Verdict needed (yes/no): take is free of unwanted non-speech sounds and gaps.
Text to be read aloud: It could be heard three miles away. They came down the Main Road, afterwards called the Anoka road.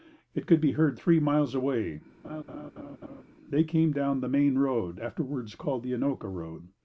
no